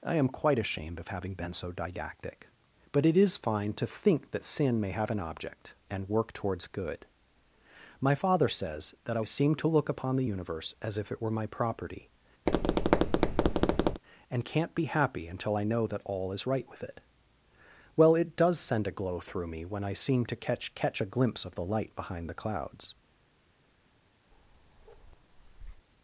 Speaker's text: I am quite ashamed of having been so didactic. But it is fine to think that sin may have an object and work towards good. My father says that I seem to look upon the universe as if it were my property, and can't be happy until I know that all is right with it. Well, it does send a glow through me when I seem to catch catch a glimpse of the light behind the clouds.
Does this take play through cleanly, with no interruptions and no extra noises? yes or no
no